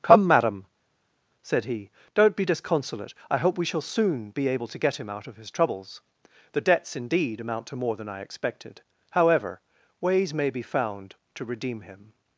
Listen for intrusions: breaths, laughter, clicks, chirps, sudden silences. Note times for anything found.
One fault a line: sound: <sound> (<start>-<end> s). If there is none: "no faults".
no faults